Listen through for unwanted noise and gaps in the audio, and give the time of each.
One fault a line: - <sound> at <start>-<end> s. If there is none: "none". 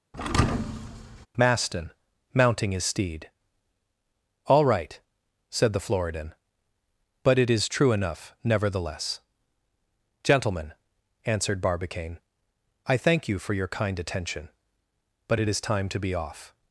- thud at 0.1-1.3 s